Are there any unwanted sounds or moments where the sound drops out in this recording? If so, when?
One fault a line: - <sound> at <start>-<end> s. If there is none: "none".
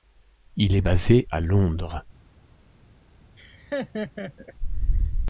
- laugh at 3.4-4.5 s